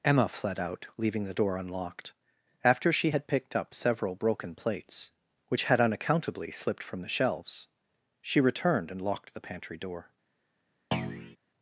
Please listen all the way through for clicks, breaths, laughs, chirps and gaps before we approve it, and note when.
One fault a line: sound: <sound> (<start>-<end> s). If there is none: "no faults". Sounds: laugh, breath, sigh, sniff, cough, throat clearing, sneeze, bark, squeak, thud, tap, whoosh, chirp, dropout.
sound: thud (10.9-11.4 s)